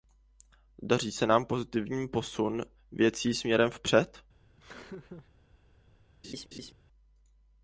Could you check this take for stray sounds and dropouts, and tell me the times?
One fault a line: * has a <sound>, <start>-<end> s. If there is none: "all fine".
* has a laugh, 4.6-5.3 s
* has a laugh, 6.2-6.7 s